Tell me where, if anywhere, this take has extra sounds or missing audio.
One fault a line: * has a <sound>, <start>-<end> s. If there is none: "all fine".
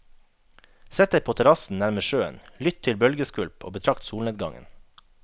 all fine